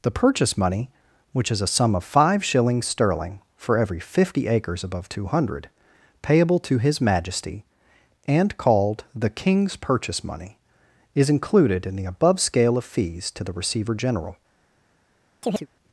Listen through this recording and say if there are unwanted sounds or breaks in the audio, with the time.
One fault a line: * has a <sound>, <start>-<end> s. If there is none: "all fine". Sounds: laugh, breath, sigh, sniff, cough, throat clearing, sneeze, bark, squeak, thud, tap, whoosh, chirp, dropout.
* has a chirp, 15.4-15.7 s